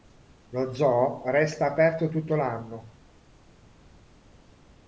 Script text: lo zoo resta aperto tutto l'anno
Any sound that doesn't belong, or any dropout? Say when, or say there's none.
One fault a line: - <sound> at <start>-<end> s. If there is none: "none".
none